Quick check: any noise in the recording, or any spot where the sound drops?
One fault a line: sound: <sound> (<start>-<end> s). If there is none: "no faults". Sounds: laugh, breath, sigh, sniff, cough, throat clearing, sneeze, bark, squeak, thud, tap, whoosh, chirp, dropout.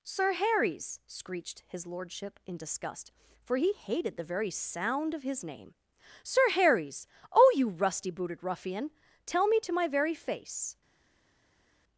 no faults